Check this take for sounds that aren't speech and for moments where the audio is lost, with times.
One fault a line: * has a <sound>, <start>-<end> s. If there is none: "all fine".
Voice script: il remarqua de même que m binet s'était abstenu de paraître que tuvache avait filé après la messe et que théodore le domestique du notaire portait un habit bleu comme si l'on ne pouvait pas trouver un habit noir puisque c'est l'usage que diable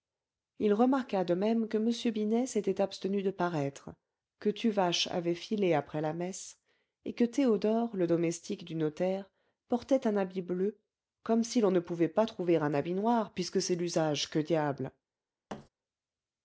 * has a thud, 15.5-15.7 s